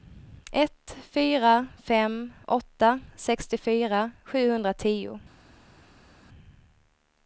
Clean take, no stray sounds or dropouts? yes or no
yes